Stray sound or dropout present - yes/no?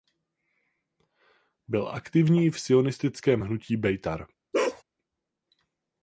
yes